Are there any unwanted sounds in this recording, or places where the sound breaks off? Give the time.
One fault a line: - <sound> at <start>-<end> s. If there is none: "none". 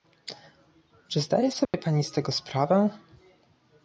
- dropout at 1.6-1.7 s